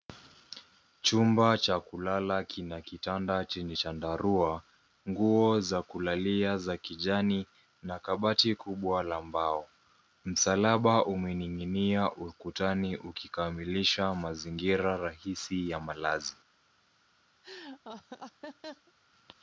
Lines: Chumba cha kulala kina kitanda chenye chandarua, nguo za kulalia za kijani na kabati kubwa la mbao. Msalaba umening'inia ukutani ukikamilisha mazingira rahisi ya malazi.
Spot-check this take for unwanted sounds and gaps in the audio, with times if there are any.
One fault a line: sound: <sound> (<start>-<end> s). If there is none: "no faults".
sound: laugh (17.4-18.9 s)